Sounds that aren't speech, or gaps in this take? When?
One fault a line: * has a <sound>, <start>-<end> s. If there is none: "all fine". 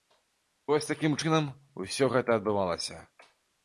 all fine